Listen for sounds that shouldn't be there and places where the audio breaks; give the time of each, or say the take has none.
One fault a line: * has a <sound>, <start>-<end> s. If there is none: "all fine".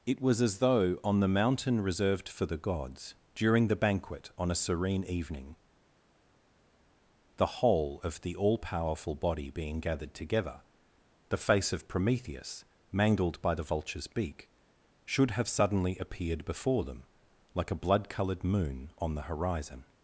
all fine